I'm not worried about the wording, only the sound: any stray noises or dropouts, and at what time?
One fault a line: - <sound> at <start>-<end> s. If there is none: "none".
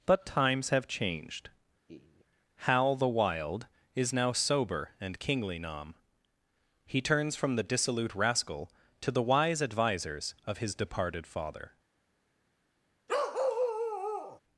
- laugh at 1.9-2.3 s
- bark at 13.1-14.4 s